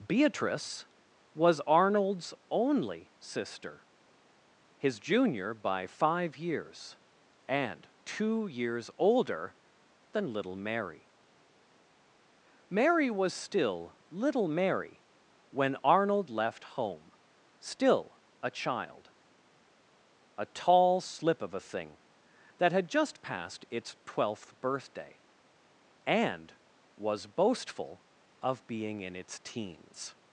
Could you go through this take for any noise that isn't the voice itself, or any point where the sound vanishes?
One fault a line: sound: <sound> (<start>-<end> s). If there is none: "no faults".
no faults